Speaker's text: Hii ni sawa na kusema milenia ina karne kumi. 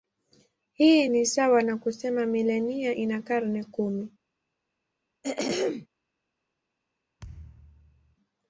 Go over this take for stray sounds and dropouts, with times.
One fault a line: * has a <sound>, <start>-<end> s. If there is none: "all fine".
* has a throat clearing, 5.2-5.9 s
* has a thud, 7.2-8.2 s